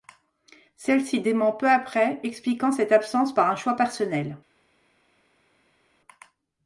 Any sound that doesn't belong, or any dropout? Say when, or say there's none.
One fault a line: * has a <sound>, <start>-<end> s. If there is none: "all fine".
all fine